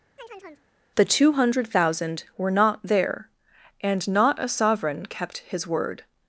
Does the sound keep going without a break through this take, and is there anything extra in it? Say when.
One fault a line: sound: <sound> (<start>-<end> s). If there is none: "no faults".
sound: chirp (0.2-0.7 s)